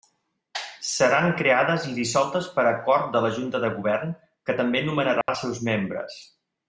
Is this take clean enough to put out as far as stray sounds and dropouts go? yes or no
no